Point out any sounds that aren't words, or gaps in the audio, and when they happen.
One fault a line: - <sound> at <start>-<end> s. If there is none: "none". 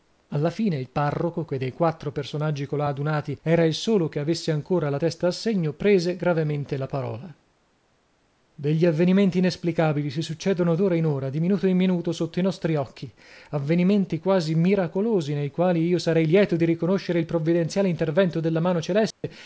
- dropout at 19.1-19.2 s